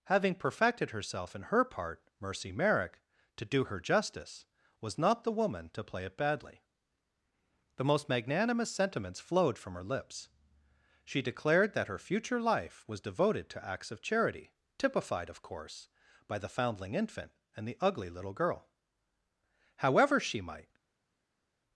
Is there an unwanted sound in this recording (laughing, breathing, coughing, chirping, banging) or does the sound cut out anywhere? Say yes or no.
no